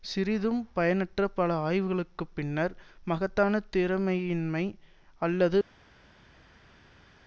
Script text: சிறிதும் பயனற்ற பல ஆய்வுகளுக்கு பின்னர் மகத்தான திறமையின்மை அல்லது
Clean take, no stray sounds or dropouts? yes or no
yes